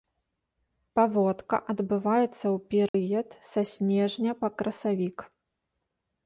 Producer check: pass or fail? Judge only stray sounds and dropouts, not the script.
fail